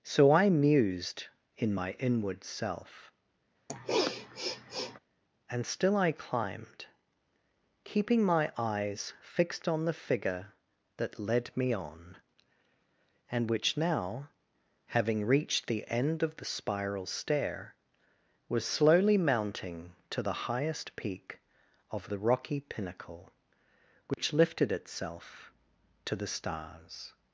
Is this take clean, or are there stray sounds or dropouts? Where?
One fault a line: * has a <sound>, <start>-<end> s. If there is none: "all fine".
* has a sniff, 3.7-5.0 s
* has a dropout, 24.1-24.2 s